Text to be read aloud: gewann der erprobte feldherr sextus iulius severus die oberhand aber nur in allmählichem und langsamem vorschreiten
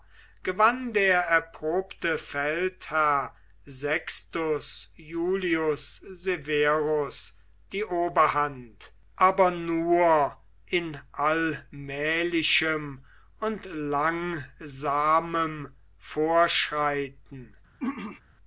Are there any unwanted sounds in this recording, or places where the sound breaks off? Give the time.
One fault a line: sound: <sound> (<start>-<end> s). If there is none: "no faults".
sound: throat clearing (17.8-18.2 s)